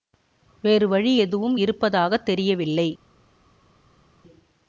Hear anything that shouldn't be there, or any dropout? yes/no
no